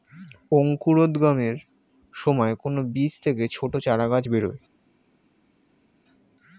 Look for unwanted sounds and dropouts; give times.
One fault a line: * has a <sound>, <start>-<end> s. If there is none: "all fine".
all fine